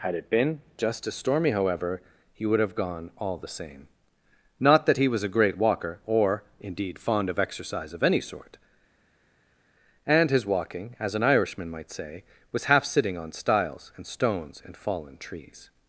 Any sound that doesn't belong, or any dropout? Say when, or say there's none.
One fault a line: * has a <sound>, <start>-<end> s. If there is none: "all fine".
all fine